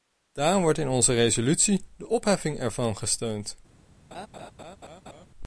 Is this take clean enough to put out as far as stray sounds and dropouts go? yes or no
no